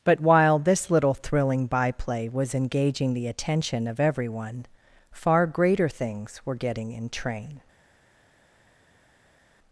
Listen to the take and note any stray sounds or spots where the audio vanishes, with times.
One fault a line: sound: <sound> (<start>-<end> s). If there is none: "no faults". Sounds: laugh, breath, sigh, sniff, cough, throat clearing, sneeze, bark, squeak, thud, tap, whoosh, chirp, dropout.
no faults